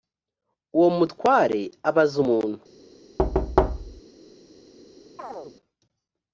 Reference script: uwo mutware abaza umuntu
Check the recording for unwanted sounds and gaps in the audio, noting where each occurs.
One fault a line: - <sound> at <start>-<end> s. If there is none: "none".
- thud at 3.2-4.0 s
- chirp at 5.2-5.6 s